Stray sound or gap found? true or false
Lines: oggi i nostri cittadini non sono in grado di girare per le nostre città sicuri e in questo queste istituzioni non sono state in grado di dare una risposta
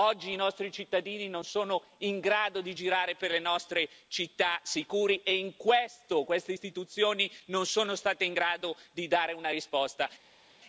false